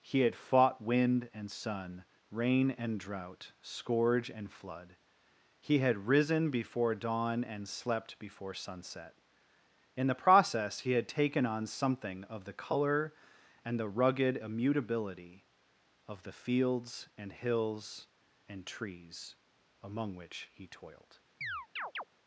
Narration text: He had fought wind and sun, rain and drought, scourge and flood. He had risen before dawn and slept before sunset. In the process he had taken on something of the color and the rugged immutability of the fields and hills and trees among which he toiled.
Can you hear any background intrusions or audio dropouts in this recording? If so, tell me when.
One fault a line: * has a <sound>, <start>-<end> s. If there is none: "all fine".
* has a chirp, 21.4-22.0 s